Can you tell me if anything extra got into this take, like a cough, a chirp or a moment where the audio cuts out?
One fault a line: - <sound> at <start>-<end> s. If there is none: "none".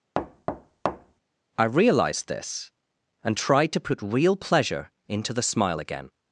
- thud at 0.1-1.2 s